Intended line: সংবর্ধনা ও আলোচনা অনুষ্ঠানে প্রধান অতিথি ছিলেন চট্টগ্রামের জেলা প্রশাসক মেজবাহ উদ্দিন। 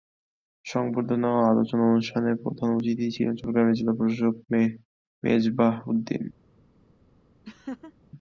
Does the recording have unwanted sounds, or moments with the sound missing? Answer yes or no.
yes